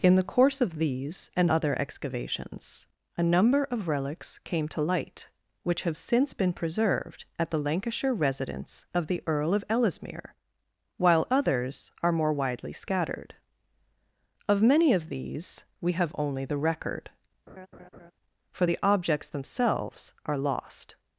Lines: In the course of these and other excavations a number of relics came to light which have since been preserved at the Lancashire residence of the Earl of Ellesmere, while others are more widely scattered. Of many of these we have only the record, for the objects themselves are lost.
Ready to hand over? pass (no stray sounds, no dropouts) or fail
fail